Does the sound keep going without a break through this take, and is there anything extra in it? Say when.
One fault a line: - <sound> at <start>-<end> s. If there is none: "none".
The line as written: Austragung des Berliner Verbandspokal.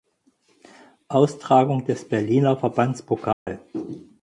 - dropout at 3.3-3.5 s